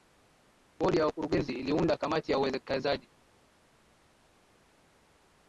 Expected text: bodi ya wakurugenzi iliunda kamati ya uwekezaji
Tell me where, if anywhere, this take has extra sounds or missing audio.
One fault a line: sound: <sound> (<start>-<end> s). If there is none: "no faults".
no faults